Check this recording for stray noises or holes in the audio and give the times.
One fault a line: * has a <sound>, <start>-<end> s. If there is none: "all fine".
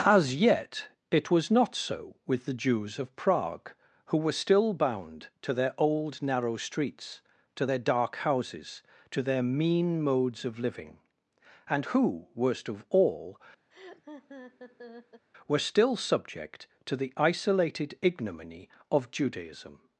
* has a laugh, 13.7-15.3 s